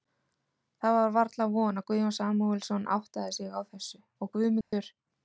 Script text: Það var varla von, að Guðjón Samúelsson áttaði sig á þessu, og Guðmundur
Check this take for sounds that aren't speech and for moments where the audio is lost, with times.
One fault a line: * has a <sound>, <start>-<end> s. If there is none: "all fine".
* has a dropout, 4.6-4.7 s